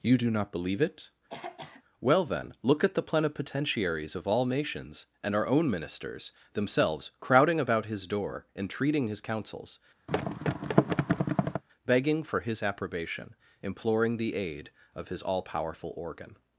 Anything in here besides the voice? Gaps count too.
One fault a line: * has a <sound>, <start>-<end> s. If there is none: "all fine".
* has a throat clearing, 1.3-1.8 s
* has a thud, 10.1-11.6 s